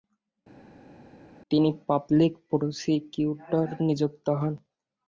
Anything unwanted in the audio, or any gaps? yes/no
no